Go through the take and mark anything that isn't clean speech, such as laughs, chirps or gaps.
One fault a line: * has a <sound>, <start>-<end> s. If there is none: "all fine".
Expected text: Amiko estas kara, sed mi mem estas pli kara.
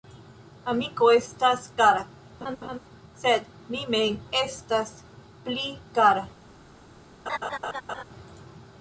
* has a laugh, 2.4-2.8 s
* has a laugh, 7.3-8.0 s